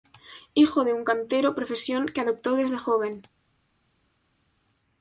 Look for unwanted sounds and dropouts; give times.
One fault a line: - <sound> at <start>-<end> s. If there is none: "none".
none